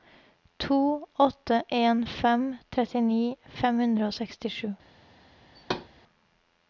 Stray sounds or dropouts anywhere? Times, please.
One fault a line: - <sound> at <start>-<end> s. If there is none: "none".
- thud at 5.5-5.9 s